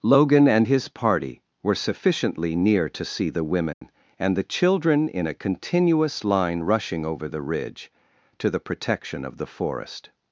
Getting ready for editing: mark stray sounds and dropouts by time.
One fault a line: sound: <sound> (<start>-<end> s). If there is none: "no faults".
sound: dropout (3.7-3.8 s)